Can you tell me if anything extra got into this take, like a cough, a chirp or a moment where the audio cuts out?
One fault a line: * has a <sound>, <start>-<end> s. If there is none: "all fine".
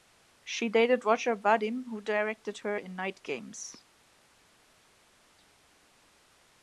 all fine